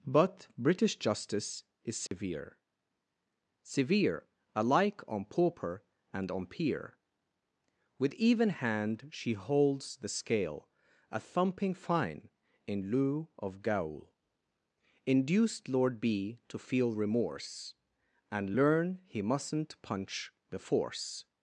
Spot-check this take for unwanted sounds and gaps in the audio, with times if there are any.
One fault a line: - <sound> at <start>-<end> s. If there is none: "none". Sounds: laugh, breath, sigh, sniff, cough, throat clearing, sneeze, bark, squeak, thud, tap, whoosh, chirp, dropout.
- dropout at 2.1-2.1 s